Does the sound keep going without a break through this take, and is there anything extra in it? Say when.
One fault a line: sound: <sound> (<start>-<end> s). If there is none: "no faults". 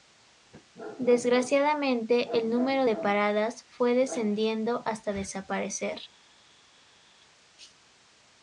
no faults